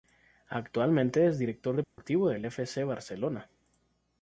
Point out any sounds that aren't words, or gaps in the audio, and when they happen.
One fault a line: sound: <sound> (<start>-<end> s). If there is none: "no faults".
sound: dropout (1.8-2.0 s)